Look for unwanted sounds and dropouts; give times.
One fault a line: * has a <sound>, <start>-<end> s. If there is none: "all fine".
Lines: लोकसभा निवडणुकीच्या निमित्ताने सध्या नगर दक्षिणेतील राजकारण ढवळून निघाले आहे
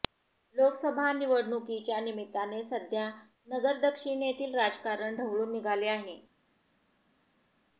all fine